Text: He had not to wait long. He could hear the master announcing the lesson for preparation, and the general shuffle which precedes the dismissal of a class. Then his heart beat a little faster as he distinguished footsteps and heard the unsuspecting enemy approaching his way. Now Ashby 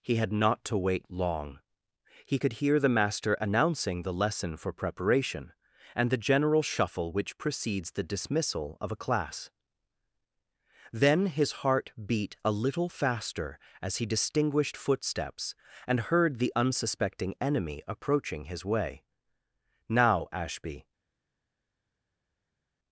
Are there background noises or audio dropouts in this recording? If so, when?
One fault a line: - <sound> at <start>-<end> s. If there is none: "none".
none